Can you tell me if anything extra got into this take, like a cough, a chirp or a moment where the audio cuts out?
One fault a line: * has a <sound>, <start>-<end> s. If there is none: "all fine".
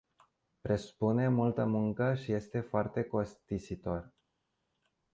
all fine